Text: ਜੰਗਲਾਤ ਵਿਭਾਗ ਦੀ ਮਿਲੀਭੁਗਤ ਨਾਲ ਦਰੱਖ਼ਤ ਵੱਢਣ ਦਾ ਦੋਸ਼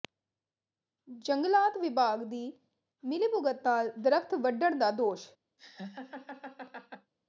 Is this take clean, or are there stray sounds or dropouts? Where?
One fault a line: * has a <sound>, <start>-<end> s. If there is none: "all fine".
* has a laugh, 5.6-7.1 s